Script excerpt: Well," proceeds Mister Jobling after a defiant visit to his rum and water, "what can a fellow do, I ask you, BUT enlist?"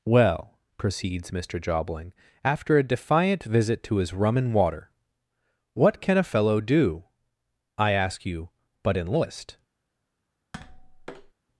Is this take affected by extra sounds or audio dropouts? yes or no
yes